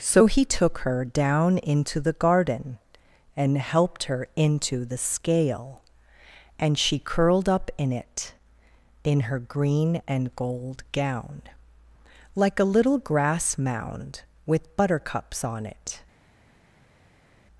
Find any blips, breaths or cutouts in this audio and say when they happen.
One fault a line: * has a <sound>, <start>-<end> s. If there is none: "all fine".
all fine